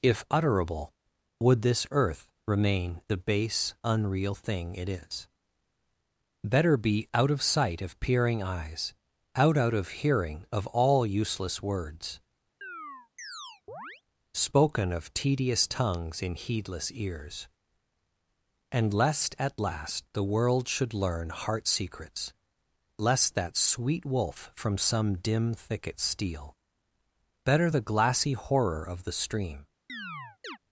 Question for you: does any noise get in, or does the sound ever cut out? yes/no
yes